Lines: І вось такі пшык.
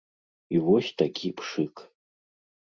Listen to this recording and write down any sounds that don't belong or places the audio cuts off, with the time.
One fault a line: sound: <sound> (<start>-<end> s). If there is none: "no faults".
no faults